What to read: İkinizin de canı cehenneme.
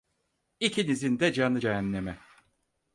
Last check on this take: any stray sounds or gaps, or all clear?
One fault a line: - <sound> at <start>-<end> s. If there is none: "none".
none